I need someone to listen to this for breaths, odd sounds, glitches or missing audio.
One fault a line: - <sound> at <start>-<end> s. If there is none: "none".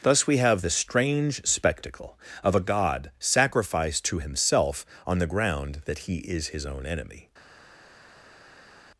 none